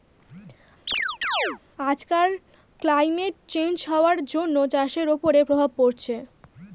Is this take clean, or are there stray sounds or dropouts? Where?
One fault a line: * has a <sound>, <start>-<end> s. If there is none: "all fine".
* has a chirp, 0.9-1.6 s